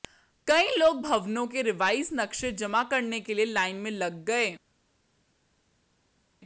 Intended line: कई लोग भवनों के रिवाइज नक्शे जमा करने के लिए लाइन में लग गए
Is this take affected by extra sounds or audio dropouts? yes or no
no